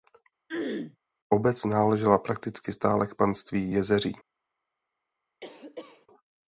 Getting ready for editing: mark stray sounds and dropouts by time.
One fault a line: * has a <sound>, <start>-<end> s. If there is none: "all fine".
* has a throat clearing, 0.5-1.0 s
* has a cough, 5.4-6.1 s